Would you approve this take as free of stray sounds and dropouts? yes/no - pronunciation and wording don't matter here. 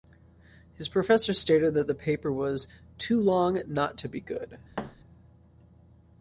no